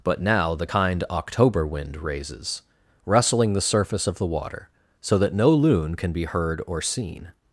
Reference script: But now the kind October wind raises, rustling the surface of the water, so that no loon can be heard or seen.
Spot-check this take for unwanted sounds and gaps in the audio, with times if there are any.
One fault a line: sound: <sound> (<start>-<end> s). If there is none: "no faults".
no faults